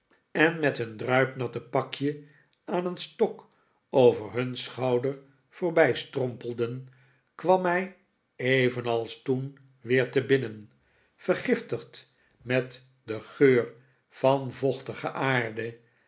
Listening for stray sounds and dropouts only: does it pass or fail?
pass